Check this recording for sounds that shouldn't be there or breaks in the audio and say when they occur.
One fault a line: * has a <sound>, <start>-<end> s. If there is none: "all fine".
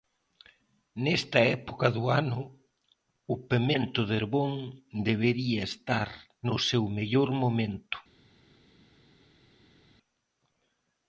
all fine